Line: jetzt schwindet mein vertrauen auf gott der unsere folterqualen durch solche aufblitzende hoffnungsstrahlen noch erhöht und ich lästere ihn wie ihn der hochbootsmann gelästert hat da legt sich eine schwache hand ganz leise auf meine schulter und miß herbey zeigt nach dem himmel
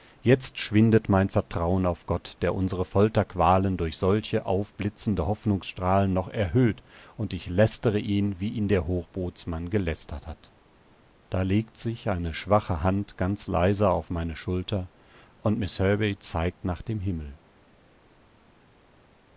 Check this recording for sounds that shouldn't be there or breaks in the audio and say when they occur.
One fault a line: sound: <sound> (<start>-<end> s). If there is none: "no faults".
no faults